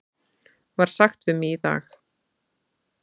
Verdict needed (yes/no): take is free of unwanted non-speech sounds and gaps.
yes